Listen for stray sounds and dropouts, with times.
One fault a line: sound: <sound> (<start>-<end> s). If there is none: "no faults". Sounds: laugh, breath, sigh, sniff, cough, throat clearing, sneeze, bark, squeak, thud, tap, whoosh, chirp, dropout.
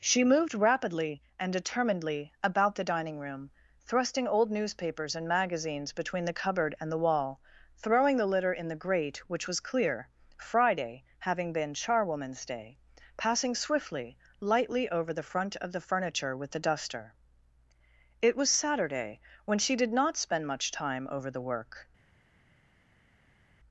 no faults